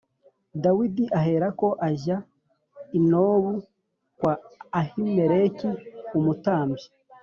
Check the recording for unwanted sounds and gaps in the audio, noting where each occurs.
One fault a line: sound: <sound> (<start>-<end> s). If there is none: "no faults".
no faults